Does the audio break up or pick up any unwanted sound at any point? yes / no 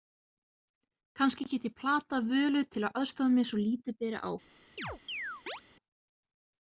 yes